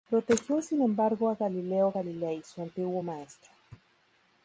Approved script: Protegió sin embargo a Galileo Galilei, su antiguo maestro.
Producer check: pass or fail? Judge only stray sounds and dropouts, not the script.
pass